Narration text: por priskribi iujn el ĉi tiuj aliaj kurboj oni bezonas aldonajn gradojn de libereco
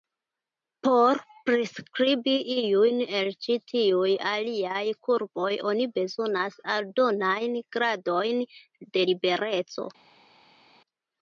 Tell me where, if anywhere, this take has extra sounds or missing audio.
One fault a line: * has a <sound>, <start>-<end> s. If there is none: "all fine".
all fine